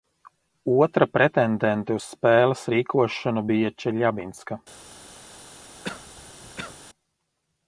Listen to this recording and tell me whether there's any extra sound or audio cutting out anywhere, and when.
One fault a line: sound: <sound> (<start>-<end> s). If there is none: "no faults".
sound: cough (5.8-6.8 s)